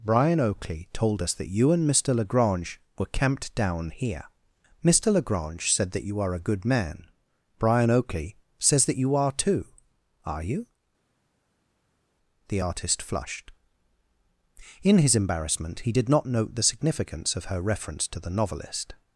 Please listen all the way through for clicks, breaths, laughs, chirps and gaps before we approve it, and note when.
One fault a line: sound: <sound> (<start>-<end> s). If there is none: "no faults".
no faults